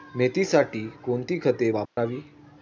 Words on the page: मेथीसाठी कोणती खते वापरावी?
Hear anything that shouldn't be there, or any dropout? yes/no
yes